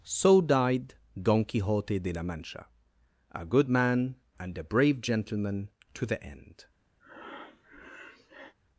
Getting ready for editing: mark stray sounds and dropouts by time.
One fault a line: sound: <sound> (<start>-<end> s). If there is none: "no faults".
sound: breath (7.0-8.5 s)